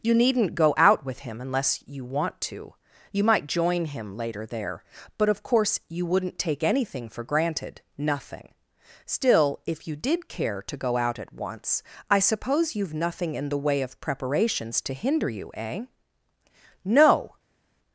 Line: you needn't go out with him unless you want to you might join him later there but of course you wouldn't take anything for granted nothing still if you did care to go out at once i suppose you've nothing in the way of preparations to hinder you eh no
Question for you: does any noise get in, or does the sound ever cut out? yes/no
no